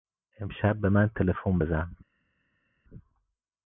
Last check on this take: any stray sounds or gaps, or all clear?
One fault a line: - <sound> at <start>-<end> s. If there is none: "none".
none